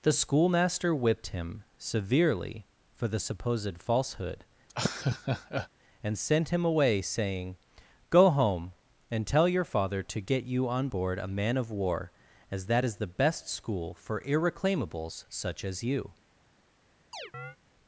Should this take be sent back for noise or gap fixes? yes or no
yes